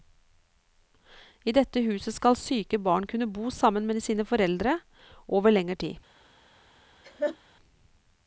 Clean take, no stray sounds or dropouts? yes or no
no